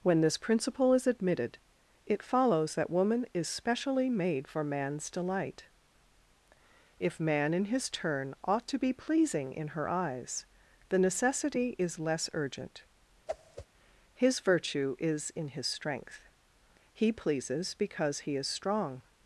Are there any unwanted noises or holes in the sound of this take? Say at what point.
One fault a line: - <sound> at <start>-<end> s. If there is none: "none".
- whoosh at 13.3-13.7 s